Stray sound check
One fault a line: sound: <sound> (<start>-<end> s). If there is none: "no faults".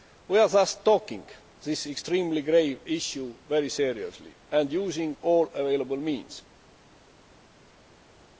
no faults